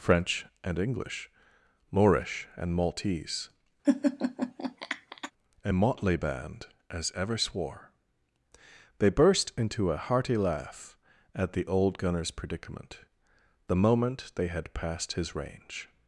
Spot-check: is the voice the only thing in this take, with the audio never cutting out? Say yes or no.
no